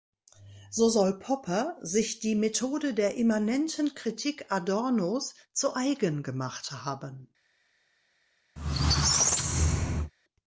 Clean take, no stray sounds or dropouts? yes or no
no